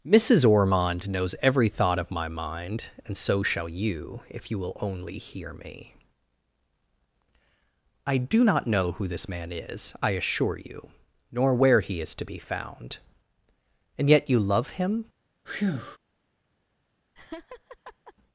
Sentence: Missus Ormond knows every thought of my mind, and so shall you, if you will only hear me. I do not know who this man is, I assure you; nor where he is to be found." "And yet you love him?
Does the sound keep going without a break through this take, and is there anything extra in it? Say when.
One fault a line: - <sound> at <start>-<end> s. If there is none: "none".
- breath at 15.5-16.0 s
- laugh at 17.2-18.1 s